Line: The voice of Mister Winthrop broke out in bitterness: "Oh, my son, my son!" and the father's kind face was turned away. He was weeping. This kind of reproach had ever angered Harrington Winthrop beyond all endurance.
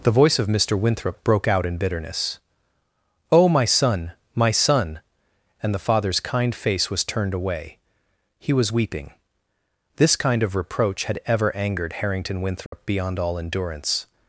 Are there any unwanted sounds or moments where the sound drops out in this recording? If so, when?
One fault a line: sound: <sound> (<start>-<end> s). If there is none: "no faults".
sound: dropout (12.7-12.7 s)